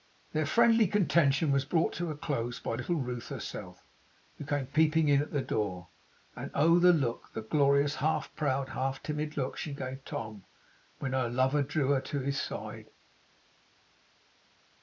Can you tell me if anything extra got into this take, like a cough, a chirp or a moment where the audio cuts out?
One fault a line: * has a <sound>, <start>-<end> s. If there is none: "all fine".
all fine